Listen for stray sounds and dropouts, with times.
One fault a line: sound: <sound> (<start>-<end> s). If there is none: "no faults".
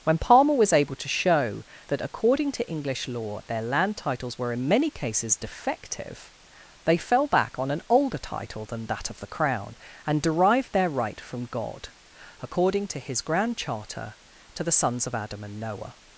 no faults